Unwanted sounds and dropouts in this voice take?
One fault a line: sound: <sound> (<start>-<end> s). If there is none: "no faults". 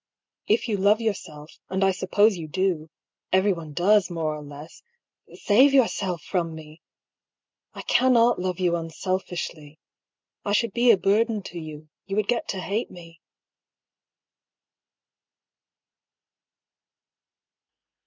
no faults